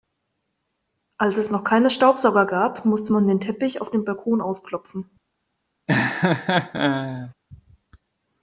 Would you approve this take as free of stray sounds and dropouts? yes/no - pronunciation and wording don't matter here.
no